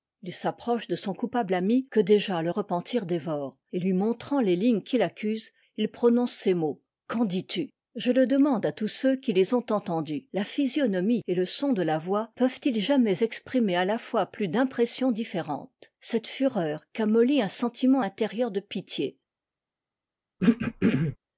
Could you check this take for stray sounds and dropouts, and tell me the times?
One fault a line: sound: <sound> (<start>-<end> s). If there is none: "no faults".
sound: throat clearing (20.4-21.2 s)